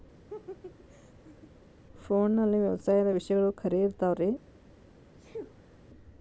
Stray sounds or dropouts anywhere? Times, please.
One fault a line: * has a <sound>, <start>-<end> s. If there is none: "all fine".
* has a laugh, 0.3-1.5 s
* has a sneeze, 5.1-5.8 s